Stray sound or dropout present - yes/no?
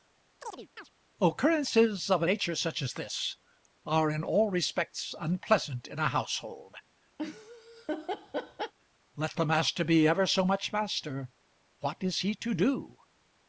yes